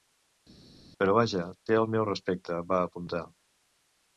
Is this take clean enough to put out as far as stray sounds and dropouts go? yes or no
yes